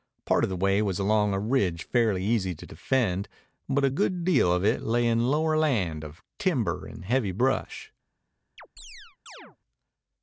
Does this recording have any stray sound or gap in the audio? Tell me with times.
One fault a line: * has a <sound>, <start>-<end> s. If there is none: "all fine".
* has a chirp, 8.6-9.6 s